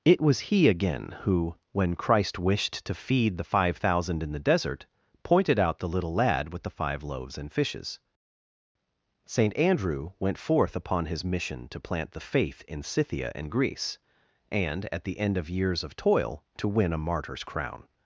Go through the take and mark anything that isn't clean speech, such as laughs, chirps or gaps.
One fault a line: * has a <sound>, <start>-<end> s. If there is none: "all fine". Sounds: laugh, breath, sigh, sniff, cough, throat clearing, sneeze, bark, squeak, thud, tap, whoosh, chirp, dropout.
all fine